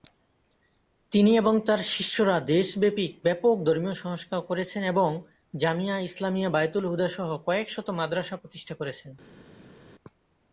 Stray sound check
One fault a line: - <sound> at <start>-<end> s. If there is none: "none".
none